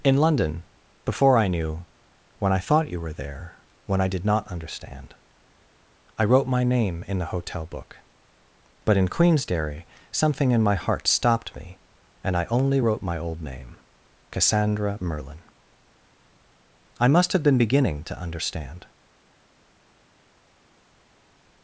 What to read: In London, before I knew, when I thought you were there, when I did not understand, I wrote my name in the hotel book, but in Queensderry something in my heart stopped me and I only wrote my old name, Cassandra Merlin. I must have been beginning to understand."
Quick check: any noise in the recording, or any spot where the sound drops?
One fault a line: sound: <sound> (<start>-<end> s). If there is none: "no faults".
no faults